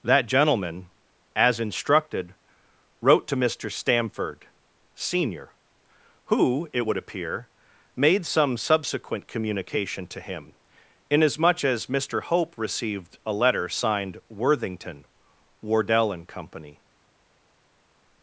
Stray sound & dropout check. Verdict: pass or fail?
pass